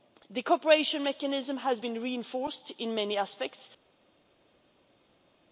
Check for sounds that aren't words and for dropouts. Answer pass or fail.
pass